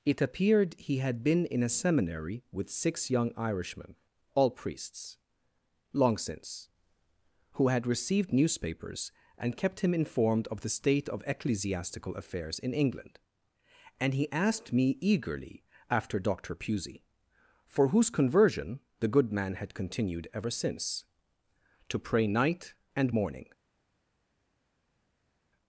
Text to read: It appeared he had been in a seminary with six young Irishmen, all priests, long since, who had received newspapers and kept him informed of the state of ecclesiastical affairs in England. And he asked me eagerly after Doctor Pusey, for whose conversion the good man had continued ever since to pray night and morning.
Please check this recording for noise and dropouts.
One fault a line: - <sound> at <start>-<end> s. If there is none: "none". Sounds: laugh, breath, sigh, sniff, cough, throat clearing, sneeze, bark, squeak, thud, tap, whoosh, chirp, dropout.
none